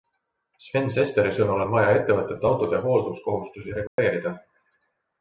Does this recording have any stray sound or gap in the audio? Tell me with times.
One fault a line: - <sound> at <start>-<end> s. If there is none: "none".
- dropout at 3.9-4.0 s